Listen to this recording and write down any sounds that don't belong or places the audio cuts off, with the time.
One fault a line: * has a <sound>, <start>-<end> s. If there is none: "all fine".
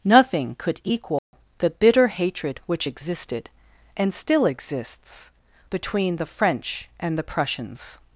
* has a dropout, 1.2-1.3 s